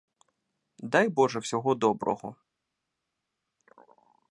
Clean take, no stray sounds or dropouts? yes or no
yes